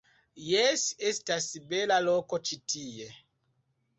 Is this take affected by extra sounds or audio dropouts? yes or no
no